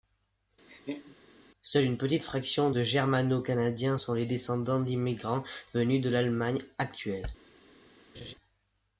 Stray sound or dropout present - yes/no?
yes